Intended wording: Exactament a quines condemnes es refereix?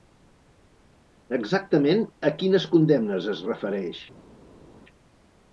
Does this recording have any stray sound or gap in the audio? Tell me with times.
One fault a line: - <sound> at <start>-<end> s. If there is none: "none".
none